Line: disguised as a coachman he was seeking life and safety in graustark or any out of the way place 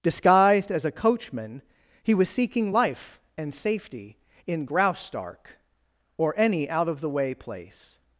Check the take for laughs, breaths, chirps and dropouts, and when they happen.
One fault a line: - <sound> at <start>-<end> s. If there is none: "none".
none